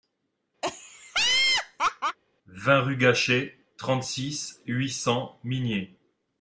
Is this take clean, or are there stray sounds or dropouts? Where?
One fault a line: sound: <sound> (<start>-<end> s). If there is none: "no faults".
sound: laugh (0.6-2.2 s)